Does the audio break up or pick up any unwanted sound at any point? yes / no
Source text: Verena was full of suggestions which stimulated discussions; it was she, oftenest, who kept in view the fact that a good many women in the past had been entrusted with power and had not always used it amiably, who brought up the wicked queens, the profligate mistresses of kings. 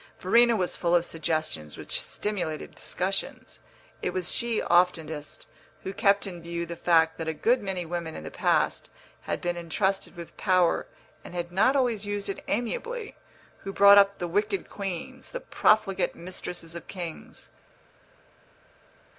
no